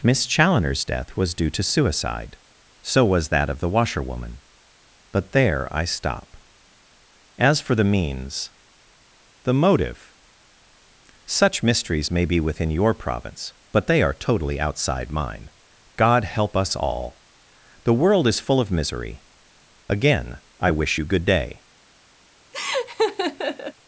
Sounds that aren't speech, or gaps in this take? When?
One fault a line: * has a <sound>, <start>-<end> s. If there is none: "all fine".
* has a laugh, 22.5-23.7 s